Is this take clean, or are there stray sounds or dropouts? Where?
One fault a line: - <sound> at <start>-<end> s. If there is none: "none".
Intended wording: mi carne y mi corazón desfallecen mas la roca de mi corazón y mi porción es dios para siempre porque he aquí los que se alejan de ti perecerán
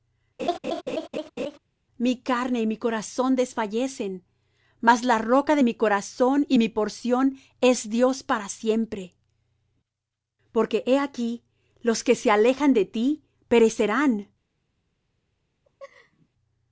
- laugh at 0.4-1.6 s
- laugh at 15.6-16.3 s